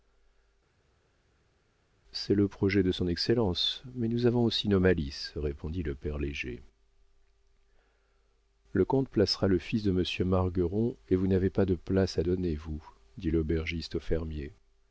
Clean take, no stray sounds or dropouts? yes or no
yes